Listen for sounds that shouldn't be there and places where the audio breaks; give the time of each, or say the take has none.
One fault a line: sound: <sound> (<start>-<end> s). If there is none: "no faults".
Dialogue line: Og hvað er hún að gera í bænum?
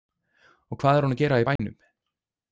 sound: dropout (1.6-1.6 s)